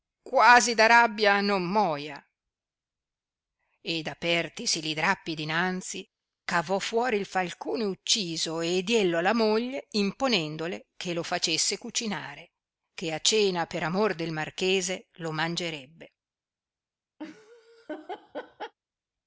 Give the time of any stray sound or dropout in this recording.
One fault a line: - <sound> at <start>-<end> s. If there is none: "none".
- laugh at 17.2-18.7 s